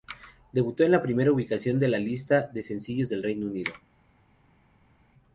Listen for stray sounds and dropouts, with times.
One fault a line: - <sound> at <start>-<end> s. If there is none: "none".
none